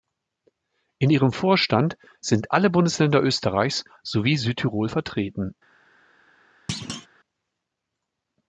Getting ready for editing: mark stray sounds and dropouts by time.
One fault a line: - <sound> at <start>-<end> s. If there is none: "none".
- thud at 6.7-7.1 s